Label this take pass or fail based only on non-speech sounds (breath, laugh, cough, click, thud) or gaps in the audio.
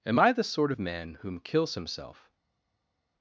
pass